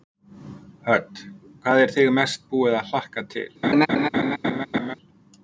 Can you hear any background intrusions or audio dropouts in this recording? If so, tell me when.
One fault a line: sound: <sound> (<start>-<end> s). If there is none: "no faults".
sound: laugh (3.6-4.9 s)